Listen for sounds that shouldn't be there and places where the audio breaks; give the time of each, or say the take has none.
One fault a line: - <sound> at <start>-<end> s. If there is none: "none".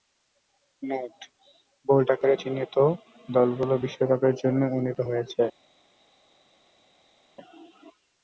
none